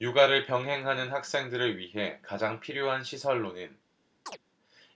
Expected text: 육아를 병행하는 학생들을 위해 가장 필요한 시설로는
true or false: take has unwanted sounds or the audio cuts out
true